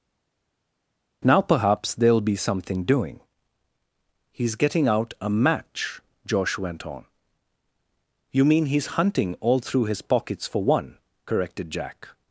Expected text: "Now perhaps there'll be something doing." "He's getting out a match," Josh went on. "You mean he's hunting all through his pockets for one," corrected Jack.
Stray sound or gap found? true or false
false